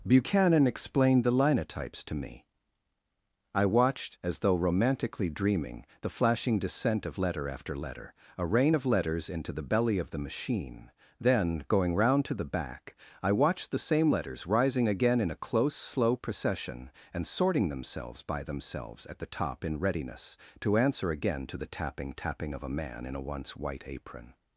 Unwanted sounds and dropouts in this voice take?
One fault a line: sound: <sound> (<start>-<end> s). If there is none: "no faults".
no faults